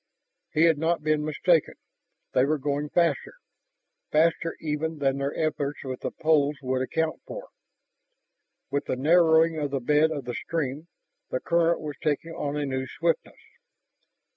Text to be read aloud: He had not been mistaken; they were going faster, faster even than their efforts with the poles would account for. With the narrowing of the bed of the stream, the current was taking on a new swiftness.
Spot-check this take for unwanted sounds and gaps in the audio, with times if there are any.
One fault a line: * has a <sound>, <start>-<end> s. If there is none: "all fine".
all fine